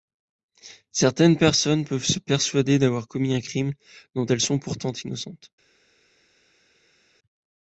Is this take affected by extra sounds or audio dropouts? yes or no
no